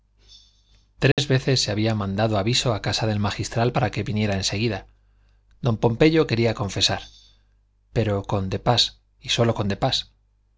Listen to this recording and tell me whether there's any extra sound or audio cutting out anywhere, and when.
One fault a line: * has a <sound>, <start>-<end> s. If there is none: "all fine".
* has a dropout, 1.1-1.2 s